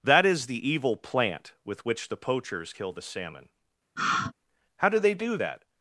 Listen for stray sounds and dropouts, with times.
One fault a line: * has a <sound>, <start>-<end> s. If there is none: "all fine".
* has a sigh, 4.0-4.3 s